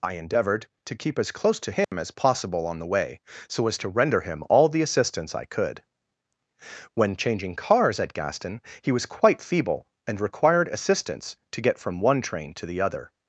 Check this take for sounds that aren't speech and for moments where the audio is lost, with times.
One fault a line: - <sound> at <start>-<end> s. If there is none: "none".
- dropout at 1.8-1.9 s